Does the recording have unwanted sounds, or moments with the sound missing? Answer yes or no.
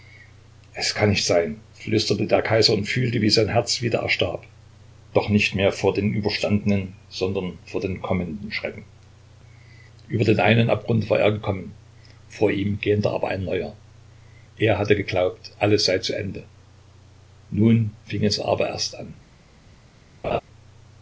yes